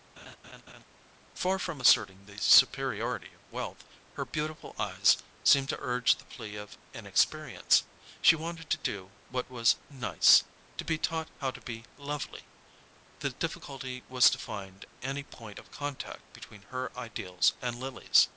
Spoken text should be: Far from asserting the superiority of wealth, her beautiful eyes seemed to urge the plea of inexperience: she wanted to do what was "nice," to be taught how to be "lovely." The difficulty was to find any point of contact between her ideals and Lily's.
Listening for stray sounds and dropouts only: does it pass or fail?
fail